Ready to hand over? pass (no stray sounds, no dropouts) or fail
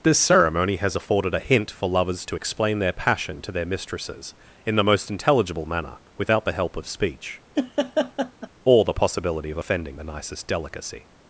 fail